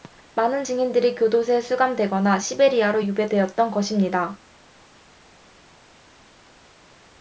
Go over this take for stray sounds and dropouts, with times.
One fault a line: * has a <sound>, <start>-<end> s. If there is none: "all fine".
all fine